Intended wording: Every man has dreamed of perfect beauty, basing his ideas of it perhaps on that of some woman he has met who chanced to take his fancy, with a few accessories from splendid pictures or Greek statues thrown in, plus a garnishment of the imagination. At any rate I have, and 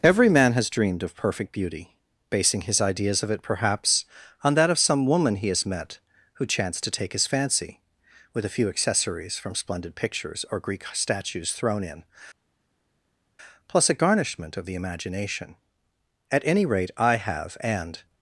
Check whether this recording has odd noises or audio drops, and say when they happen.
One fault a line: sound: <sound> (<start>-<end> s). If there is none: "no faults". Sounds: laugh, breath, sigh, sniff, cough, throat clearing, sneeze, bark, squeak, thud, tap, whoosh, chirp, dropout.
no faults